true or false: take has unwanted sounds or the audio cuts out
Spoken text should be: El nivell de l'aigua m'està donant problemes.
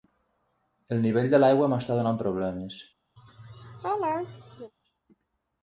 true